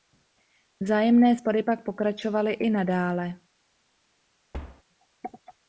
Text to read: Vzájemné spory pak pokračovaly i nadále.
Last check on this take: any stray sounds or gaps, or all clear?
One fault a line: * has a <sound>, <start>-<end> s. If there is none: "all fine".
* has a thud, 4.5-4.8 s